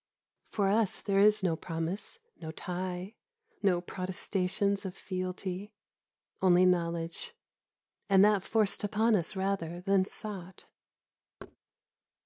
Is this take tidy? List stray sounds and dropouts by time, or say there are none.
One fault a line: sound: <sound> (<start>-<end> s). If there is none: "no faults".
sound: thud (11.4-11.6 s)